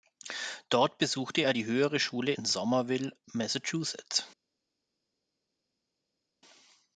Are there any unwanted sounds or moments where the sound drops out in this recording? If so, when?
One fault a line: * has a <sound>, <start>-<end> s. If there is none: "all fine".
all fine